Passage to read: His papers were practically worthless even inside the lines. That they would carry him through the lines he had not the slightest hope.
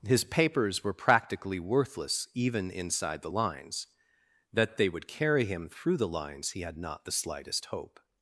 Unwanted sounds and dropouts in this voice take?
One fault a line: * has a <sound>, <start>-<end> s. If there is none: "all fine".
all fine